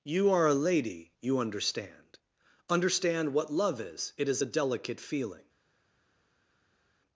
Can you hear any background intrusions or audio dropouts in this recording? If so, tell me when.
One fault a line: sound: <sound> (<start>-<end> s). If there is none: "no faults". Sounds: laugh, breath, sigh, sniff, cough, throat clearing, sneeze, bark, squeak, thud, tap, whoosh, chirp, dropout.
no faults